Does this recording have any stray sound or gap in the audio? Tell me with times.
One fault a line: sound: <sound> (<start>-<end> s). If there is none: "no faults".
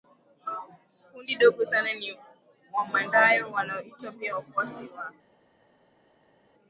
no faults